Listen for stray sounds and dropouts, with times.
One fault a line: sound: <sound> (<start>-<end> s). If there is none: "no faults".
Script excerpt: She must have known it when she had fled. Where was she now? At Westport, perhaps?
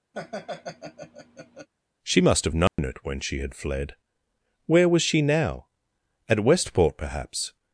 sound: laugh (0.1-1.7 s)
sound: dropout (2.7-2.8 s)